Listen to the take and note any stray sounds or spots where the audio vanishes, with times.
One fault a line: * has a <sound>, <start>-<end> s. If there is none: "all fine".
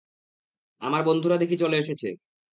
all fine